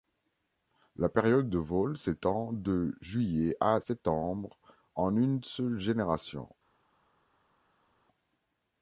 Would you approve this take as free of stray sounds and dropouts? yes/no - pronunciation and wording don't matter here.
yes